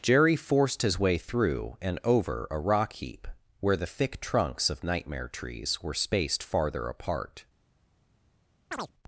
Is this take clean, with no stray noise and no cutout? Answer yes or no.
no